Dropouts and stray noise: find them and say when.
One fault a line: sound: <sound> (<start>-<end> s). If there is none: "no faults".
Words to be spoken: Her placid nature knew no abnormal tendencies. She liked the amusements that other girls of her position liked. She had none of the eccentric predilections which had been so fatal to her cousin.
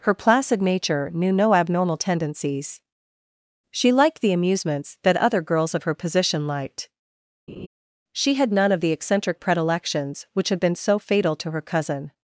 sound: laugh (7.5-7.7 s)